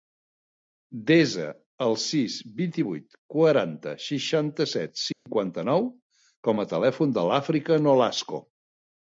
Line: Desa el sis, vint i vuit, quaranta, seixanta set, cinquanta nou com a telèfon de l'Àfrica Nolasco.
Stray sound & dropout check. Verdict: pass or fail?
fail